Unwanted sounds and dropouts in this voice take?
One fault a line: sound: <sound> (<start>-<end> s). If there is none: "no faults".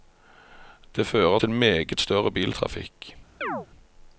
sound: chirp (3.4-3.7 s)